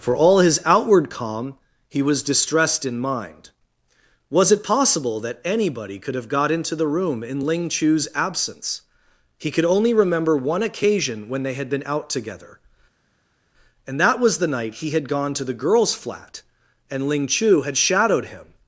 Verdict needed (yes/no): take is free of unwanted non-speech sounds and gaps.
yes